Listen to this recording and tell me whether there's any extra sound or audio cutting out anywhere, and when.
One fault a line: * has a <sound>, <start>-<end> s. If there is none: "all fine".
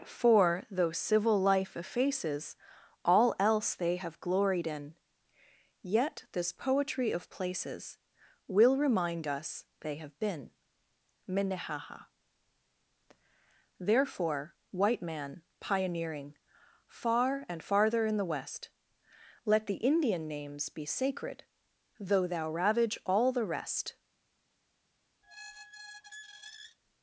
* has a squeak, 25.2-26.8 s